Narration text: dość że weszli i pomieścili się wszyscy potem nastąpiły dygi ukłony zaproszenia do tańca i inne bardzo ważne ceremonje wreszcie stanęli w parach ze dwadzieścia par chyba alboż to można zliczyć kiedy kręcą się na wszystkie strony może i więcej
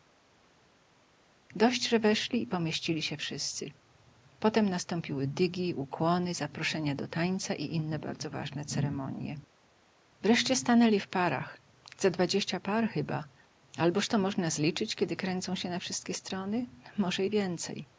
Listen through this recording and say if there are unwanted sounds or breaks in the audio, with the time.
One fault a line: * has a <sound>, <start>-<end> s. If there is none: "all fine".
all fine